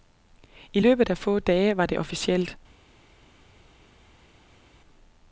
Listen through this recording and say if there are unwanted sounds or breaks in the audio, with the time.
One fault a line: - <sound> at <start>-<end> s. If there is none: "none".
none